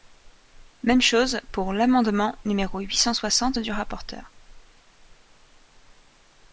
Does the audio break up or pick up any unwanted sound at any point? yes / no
no